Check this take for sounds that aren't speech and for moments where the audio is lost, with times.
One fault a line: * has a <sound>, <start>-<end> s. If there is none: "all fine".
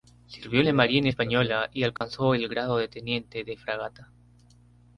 * has a dropout, 2.0-2.0 s